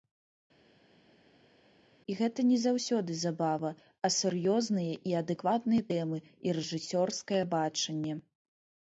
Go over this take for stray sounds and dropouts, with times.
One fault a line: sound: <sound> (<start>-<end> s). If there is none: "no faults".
no faults